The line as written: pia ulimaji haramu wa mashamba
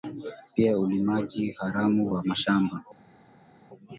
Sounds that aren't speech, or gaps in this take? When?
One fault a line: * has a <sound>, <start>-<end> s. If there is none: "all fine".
all fine